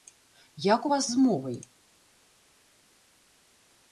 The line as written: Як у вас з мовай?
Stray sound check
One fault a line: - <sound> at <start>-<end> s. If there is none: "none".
none